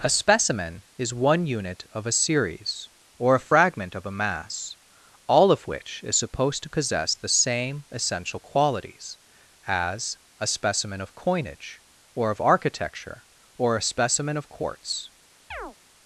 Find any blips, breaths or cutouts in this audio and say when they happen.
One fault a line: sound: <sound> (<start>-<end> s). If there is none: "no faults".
sound: chirp (15.5-15.8 s)